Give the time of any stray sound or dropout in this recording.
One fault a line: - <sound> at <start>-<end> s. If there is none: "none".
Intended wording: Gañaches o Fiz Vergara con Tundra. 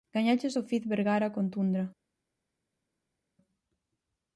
none